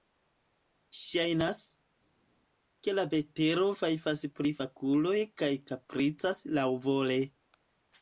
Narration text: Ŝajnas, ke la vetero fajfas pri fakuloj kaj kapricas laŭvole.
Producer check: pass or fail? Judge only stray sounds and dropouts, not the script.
pass